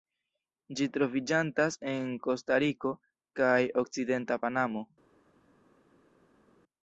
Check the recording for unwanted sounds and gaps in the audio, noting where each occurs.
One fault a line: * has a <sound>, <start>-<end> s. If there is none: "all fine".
all fine